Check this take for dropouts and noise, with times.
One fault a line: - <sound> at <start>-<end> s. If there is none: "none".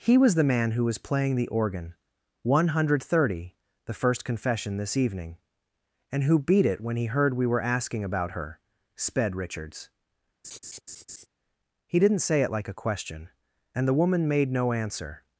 - laugh at 10.4-11.3 s